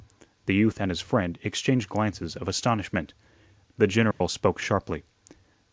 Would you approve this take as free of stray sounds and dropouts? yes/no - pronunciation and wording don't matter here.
no